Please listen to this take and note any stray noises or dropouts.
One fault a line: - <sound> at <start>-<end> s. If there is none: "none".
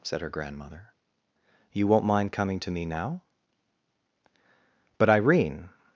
none